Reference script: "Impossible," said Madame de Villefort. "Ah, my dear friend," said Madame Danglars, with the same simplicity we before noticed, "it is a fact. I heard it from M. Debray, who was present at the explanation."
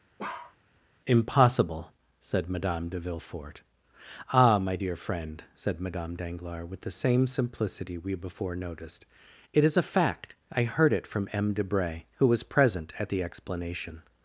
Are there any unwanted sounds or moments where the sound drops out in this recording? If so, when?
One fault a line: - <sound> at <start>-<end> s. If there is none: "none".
- bark at 0.2-0.6 s